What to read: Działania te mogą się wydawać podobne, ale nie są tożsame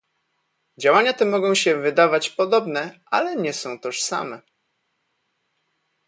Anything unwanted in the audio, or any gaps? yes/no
no